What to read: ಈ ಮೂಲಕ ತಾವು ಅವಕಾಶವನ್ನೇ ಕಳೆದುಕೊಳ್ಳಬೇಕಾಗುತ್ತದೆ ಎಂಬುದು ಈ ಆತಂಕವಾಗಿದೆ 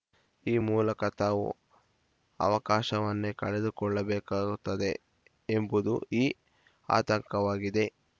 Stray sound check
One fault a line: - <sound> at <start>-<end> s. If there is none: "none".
none